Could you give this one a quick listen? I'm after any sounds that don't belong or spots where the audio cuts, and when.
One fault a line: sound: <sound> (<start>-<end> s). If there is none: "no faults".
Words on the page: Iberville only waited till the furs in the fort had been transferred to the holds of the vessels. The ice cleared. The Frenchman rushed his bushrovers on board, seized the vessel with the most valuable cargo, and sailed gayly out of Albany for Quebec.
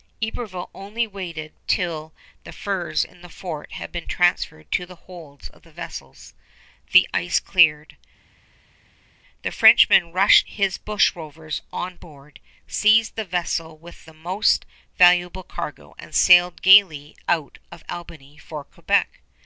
no faults